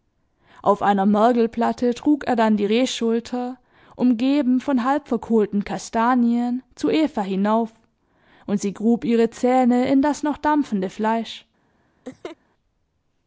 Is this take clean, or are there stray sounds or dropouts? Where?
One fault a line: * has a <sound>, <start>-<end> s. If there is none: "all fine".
* has a laugh, 12.0-12.4 s